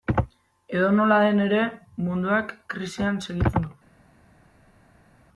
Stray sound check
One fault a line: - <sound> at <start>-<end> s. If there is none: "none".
none